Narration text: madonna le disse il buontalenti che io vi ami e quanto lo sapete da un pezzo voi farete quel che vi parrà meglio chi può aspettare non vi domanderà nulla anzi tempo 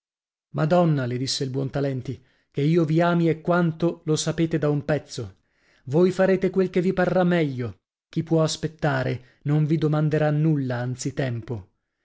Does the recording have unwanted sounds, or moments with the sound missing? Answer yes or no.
no